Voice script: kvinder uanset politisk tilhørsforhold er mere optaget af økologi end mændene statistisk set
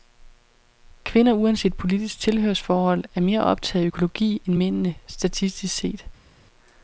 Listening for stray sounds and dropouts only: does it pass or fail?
pass